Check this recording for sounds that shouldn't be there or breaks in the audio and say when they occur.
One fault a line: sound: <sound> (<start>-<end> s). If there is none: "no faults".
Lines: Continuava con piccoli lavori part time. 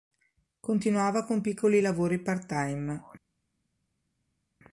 no faults